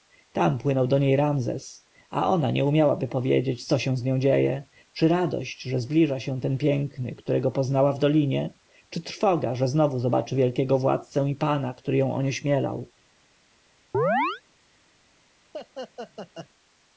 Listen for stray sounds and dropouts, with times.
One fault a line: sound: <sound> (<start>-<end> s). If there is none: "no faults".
sound: chirp (13.9-14.4 s)
sound: laugh (15.5-16.5 s)